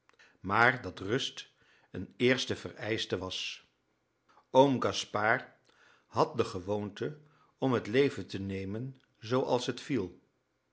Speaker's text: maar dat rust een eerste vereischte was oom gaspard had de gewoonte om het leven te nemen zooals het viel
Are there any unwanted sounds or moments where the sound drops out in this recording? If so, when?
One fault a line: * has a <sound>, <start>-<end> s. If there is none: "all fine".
all fine